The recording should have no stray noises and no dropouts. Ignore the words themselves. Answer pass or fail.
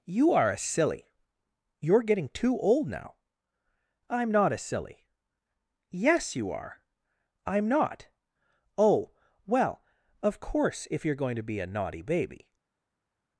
pass